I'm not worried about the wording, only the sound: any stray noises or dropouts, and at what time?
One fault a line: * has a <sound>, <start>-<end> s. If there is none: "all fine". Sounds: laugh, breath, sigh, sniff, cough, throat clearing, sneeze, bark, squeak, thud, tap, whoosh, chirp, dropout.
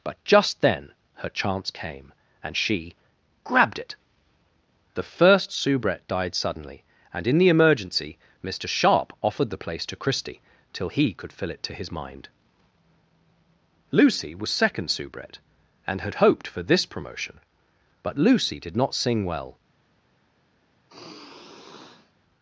* has a sigh, 20.9-22.1 s